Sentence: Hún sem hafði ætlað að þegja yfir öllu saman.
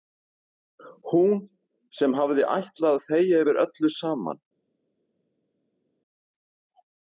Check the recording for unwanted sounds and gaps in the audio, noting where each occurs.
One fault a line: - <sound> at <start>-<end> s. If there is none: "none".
none